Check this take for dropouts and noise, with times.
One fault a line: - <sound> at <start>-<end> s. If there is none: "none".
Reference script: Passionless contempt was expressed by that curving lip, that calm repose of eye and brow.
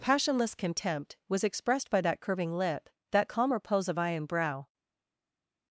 none